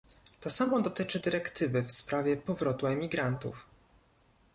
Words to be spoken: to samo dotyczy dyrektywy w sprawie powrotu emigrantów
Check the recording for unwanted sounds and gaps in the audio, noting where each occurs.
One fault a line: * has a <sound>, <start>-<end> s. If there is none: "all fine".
all fine